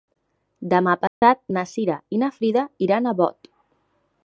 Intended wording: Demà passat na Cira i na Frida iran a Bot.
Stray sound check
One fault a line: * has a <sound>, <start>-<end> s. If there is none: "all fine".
* has a dropout, 1.1-1.2 s